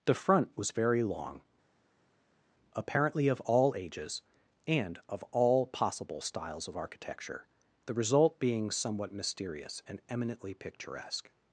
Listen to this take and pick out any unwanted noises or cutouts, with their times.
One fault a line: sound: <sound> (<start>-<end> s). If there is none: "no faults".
no faults